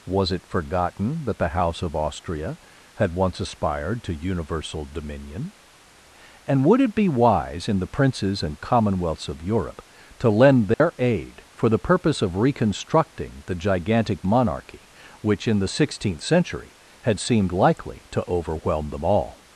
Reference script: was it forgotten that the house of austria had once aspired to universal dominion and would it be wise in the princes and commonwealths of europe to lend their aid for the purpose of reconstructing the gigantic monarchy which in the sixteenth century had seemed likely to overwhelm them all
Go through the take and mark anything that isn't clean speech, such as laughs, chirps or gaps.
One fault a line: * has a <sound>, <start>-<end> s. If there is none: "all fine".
* has a dropout, 10.7-10.8 s